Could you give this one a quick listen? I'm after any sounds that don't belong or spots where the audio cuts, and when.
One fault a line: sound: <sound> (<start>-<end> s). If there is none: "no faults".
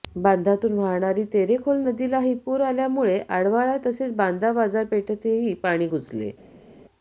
no faults